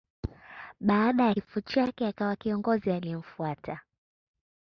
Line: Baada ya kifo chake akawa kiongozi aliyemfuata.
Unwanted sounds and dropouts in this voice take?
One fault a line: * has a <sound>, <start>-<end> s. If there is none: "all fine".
all fine